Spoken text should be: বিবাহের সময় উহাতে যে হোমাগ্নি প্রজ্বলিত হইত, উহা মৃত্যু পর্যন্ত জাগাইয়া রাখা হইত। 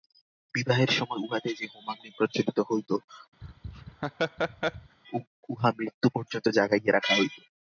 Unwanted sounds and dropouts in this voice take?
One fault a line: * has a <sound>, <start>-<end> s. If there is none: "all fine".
* has a laugh, 3.4-5.0 s